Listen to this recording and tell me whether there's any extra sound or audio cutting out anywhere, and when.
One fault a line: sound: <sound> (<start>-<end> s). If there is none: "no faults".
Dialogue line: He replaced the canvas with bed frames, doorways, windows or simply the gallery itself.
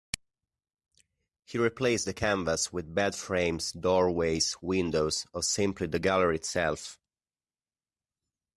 no faults